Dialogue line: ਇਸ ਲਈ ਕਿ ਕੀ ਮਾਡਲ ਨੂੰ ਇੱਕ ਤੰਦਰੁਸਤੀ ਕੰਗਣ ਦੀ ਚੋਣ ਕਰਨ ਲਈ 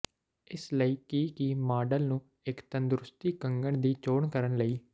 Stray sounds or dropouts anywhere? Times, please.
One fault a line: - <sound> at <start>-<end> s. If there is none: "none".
none